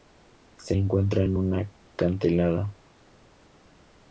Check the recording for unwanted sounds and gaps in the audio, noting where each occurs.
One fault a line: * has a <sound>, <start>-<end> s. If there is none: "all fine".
all fine